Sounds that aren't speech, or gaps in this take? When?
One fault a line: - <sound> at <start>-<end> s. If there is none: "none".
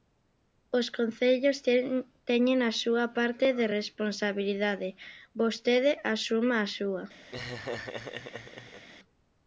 - laugh at 7.3-8.9 s